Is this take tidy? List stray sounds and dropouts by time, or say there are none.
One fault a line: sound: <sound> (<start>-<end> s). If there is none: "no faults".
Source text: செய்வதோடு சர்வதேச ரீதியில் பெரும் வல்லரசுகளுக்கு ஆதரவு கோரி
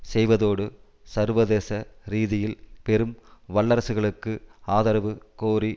no faults